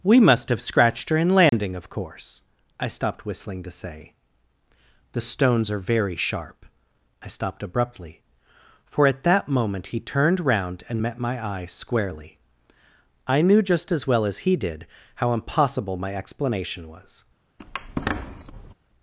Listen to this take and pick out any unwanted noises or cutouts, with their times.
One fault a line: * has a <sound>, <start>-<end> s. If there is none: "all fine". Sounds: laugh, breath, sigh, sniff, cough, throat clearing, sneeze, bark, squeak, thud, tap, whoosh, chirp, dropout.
* has a dropout, 1.5-1.5 s
* has a squeak, 17.6-18.7 s